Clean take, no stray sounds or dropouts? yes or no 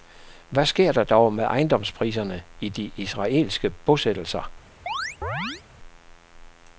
no